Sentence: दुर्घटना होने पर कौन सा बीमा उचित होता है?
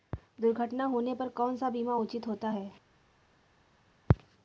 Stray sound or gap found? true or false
false